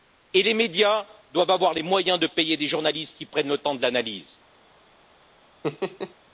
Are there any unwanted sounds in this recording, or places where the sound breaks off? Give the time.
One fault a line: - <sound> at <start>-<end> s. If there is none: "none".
- laugh at 5.6-6.1 s